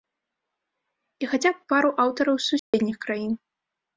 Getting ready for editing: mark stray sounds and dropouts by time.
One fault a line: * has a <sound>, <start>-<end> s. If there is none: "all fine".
* has a dropout, 2.6-2.7 s